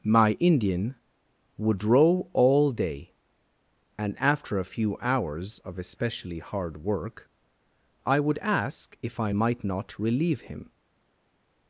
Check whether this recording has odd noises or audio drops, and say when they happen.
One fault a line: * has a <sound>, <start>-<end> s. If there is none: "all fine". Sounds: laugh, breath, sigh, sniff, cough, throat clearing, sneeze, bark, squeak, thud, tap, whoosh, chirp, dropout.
all fine